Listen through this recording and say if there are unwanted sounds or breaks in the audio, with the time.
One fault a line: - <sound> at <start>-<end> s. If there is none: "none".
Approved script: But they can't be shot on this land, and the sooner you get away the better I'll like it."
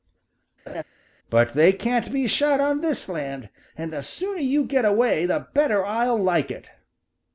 - laugh at 0.7-0.8 s